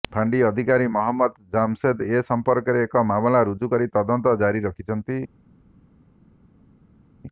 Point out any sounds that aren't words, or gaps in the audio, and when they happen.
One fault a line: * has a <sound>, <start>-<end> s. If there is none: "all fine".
all fine